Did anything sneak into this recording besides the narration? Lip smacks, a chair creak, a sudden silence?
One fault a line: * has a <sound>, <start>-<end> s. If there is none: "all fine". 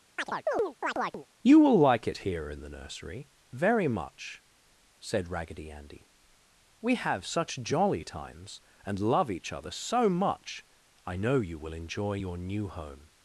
* has a chirp, 0.2-1.3 s